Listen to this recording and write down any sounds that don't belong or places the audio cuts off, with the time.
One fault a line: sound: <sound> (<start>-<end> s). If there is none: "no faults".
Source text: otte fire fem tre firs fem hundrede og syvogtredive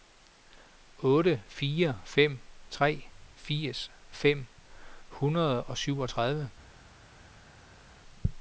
no faults